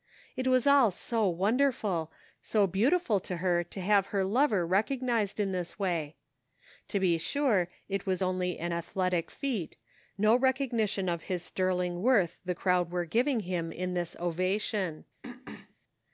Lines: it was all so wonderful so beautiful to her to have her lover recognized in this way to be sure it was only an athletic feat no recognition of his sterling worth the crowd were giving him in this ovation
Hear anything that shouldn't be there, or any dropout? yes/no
yes